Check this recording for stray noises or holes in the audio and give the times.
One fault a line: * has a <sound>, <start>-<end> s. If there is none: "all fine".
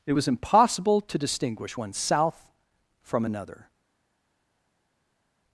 all fine